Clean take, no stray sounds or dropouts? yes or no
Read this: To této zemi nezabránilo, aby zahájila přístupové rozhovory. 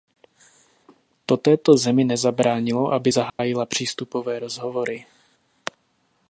no